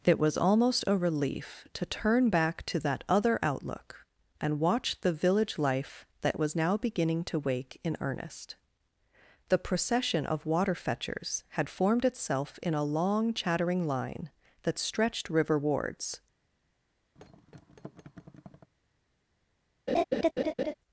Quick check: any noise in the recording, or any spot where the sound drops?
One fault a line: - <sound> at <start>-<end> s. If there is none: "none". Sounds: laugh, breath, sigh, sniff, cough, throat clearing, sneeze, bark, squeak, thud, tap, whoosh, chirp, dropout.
- thud at 17.2-18.7 s
- laugh at 19.9-20.7 s